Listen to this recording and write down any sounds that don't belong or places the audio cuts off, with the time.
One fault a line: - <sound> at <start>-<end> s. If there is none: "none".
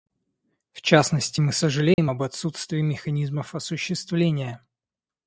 - dropout at 1.9-2.0 s